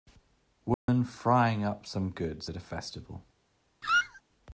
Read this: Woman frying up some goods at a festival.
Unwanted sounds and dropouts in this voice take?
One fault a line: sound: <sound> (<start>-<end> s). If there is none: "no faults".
sound: dropout (0.7-0.9 s)
sound: squeak (3.8-4.2 s)